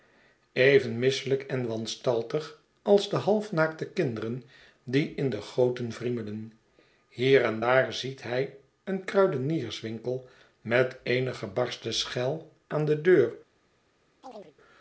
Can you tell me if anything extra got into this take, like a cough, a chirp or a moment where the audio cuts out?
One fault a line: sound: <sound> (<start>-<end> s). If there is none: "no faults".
sound: chirp (14.2-14.5 s)